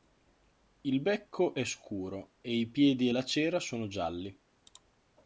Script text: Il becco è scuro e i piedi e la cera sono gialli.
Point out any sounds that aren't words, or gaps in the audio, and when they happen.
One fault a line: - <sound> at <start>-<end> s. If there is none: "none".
none